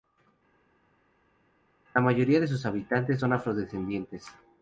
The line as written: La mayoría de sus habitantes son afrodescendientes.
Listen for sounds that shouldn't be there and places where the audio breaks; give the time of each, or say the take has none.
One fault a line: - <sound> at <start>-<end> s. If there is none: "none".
none